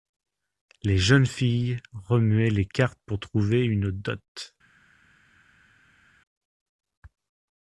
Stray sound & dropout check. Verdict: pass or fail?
pass